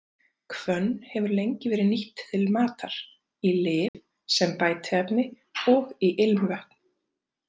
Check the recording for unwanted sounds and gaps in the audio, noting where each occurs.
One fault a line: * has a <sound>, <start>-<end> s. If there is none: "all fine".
* has a dropout, 3.9-3.9 s